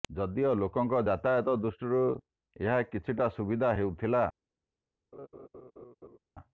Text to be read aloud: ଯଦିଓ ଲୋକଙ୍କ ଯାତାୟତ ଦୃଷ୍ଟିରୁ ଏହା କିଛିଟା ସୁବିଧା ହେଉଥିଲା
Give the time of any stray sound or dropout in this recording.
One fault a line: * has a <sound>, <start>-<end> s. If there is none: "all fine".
* has a laugh, 5.1-6.2 s